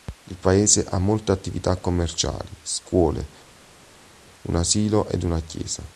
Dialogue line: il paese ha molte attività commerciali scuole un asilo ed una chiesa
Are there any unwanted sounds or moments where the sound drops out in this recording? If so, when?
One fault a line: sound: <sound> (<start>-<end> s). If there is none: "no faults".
no faults